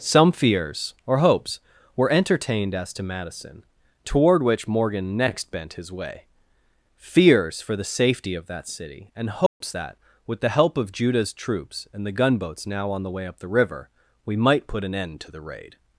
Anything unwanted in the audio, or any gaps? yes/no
yes